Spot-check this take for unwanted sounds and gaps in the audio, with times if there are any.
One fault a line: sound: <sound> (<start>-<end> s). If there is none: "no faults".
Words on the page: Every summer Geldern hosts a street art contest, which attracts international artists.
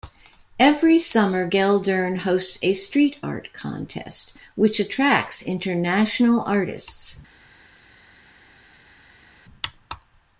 no faults